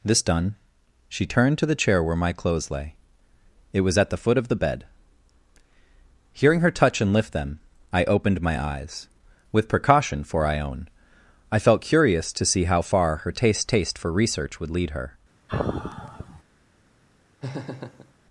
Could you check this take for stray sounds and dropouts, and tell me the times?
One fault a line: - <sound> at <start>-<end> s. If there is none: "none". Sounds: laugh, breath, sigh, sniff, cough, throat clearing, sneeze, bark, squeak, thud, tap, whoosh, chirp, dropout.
- sigh at 15.5-16.4 s
- laugh at 17.4-18.1 s